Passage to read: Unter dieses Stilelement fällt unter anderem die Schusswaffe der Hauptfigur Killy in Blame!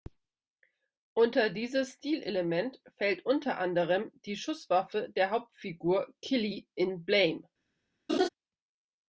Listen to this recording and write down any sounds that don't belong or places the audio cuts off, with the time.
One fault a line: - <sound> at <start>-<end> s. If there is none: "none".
- laugh at 8.1-8.3 s